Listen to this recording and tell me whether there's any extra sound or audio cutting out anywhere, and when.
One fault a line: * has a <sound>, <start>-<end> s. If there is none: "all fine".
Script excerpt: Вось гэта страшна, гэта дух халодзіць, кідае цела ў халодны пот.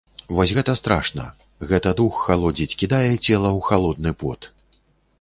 all fine